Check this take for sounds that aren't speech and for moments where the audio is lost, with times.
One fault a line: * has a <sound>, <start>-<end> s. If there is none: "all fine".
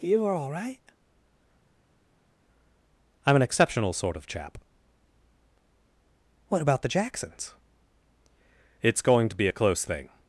all fine